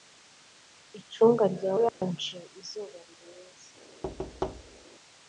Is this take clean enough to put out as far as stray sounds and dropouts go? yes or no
no